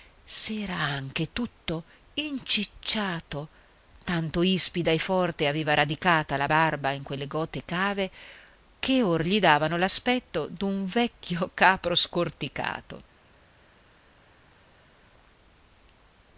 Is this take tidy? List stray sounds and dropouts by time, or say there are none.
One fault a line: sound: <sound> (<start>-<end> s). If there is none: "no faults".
no faults